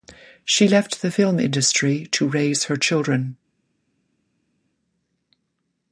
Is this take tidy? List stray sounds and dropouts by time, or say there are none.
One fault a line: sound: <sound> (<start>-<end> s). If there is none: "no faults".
no faults